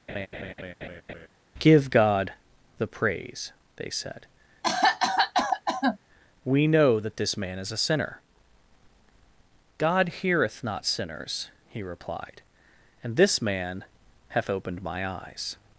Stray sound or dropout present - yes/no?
yes